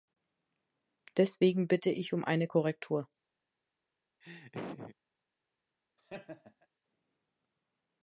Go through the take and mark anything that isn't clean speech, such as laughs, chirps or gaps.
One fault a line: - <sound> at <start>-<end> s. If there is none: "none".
- laugh at 4.2-5.0 s
- laugh at 6.0-6.7 s